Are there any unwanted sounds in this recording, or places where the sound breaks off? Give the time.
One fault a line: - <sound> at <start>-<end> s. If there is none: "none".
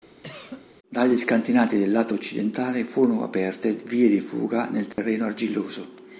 - cough at 0.2-0.7 s
- dropout at 4.9-5.0 s